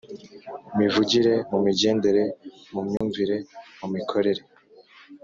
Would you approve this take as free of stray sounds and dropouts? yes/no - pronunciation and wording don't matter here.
no